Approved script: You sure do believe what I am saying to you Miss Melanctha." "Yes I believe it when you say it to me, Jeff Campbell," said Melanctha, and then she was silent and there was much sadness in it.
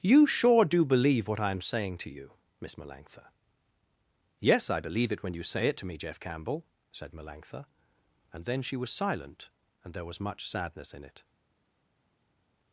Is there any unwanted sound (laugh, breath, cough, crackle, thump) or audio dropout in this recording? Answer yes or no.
no